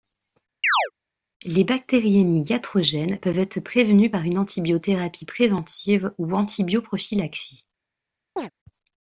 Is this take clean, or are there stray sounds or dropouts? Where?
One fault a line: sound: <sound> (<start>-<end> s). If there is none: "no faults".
sound: chirp (0.6-0.9 s)
sound: chirp (8.4-8.5 s)